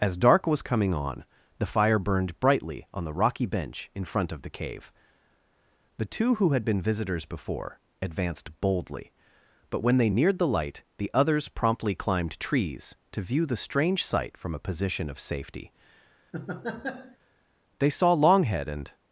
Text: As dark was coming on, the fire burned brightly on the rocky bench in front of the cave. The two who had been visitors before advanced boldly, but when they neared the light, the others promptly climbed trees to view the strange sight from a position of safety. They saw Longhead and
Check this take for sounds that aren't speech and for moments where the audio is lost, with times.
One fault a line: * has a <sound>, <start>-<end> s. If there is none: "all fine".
* has a laugh, 16.3-17.2 s